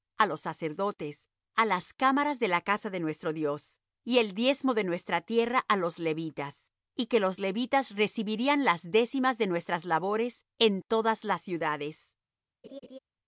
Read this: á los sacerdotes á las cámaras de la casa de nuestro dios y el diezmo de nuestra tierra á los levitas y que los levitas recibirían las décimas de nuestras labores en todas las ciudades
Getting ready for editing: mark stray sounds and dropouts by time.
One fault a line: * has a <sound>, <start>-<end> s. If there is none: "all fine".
* has a laugh, 12.6-13.0 s